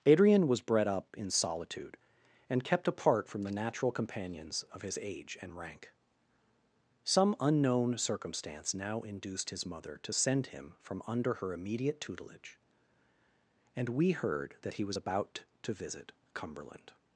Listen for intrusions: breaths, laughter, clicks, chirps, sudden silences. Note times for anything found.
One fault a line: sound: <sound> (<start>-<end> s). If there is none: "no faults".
no faults